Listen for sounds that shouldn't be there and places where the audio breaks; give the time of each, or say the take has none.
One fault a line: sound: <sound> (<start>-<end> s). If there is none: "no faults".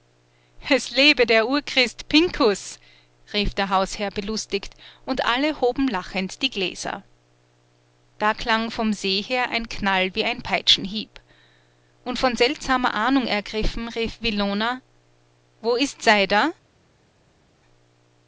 no faults